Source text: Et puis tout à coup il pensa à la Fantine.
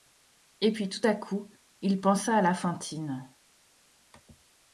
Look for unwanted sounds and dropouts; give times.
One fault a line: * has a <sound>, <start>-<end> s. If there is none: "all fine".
all fine